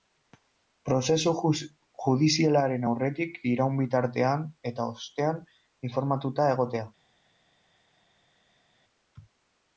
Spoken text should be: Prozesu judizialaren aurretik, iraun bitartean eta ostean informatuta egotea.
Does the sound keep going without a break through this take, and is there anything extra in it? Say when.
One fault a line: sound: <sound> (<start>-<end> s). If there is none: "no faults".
no faults